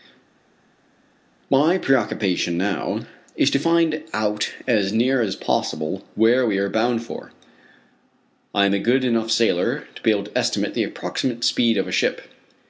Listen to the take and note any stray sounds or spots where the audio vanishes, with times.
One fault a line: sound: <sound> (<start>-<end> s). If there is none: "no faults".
no faults